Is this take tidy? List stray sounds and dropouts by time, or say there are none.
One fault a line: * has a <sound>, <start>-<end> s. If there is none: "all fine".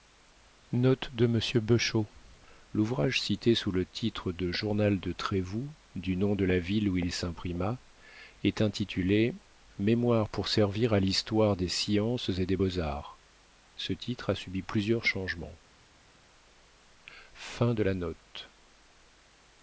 all fine